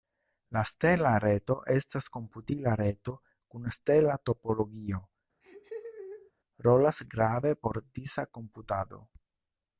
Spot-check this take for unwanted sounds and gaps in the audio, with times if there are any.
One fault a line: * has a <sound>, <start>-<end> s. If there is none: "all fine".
* has a laugh, 5.4-6.3 s